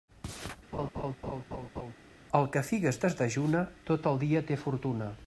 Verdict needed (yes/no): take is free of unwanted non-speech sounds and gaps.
no